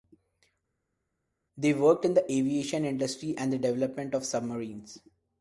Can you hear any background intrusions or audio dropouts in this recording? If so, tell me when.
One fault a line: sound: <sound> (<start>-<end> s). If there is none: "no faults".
no faults